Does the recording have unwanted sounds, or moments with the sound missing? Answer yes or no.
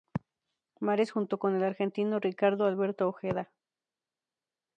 no